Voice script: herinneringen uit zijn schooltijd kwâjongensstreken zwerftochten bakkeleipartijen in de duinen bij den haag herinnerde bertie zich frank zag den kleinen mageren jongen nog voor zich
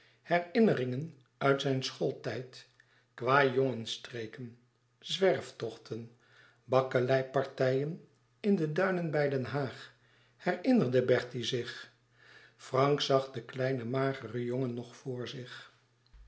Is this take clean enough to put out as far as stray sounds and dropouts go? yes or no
yes